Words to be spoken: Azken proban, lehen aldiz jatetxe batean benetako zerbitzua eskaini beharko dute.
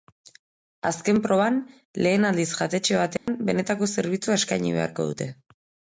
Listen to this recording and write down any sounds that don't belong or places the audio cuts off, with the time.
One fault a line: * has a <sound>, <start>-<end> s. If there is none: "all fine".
* has a dropout, 3.2-3.3 s